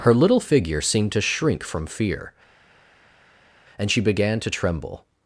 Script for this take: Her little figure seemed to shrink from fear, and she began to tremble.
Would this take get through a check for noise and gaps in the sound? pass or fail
pass